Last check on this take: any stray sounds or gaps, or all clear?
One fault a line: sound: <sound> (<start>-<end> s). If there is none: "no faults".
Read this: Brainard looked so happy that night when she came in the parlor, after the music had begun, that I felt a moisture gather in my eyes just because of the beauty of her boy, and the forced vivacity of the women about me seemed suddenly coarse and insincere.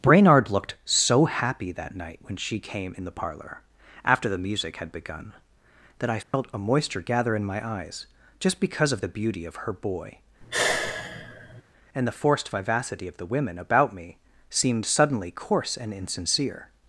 sound: dropout (6.2-6.3 s)
sound: sigh (10.4-11.6 s)